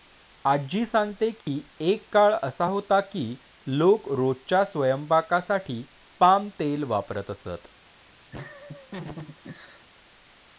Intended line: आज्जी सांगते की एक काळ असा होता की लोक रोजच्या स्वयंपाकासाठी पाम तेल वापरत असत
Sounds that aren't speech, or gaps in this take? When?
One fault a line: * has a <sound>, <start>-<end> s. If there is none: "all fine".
* has a dropout, 1.4-1.5 s
* has a laugh, 8.3-9.8 s